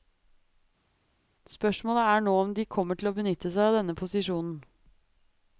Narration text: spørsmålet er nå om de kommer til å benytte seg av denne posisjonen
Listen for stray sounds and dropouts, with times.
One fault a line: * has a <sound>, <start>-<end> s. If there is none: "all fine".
all fine